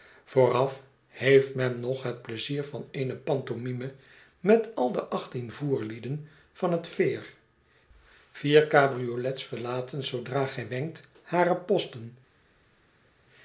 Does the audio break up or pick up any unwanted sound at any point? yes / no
no